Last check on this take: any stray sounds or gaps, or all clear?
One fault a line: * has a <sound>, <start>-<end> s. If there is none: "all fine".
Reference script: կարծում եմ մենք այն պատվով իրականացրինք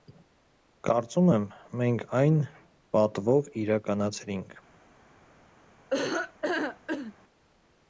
* has a laugh, 5.9-7.1 s